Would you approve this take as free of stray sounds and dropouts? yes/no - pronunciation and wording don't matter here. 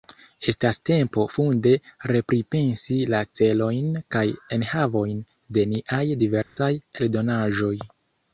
no